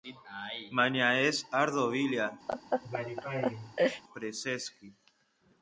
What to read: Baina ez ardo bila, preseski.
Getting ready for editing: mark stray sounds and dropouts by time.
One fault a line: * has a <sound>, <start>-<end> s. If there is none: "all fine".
* has a laugh, 2.5-4.0 s